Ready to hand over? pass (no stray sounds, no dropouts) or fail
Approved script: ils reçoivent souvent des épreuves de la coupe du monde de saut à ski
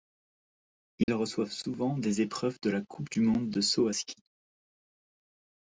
fail